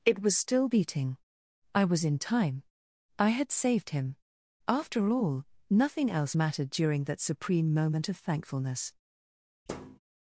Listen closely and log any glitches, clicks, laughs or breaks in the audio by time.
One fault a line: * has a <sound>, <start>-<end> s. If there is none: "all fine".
* has a thud, 9.7-10.0 s